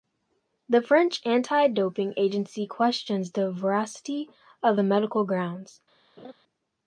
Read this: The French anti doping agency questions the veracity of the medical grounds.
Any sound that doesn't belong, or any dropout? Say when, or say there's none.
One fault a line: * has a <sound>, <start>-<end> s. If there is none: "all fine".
* has a laugh, 6.2-6.3 s